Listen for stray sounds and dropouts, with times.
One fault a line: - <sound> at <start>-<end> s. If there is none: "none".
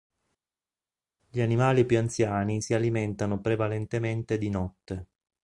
none